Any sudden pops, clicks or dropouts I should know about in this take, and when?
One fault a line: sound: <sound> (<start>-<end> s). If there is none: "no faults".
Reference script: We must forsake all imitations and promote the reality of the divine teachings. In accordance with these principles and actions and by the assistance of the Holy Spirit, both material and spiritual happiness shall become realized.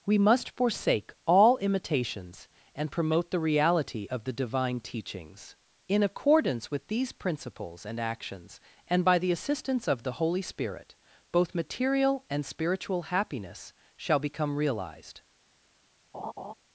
sound: laugh (16.1-16.5 s)